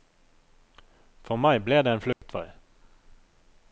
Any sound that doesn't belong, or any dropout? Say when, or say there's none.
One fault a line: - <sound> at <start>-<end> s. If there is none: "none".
- dropout at 2.1-2.2 s